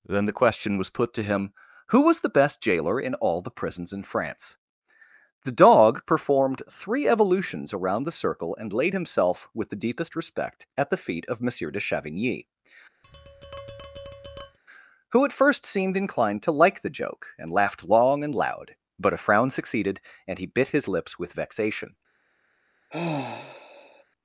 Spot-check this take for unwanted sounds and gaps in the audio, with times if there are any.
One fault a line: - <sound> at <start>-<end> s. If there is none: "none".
- tap at 13.0-14.6 s
- sigh at 22.9-24.0 s